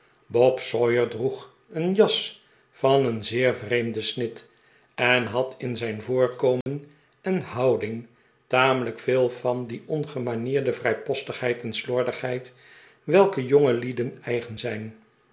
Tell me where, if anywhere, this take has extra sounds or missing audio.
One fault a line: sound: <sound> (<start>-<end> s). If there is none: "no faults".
sound: dropout (6.6-6.7 s)